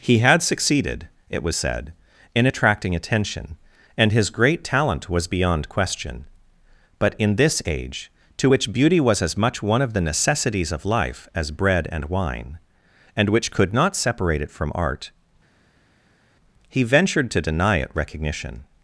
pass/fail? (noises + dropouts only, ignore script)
pass